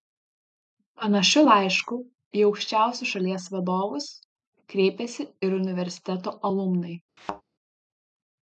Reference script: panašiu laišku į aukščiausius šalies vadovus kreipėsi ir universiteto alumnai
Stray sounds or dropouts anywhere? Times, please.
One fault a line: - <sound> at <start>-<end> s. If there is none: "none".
- thud at 7.2-7.4 s